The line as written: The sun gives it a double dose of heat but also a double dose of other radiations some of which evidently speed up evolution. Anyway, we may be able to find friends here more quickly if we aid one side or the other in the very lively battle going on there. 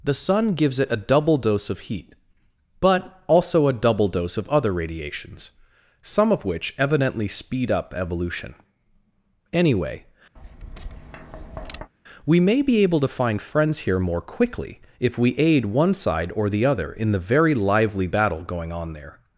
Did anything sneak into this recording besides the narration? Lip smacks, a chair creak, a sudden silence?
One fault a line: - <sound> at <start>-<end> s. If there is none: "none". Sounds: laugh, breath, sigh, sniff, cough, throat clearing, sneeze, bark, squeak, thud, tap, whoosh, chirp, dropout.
- tap at 10.4-11.9 s